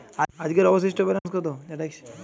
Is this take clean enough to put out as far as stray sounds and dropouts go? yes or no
no